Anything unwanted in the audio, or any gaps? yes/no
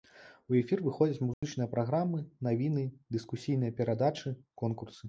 yes